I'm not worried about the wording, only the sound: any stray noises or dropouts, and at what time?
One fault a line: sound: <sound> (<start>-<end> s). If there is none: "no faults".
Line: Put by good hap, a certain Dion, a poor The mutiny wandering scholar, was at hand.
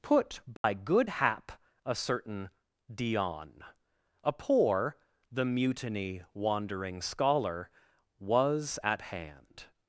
sound: dropout (0.6-0.6 s)